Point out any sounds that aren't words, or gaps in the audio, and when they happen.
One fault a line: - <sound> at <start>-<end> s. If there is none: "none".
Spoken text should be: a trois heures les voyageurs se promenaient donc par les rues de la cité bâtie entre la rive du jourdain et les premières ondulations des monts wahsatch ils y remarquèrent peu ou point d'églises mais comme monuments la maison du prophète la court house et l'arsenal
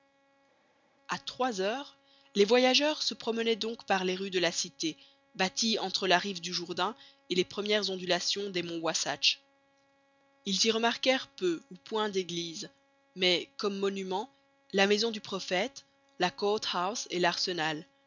none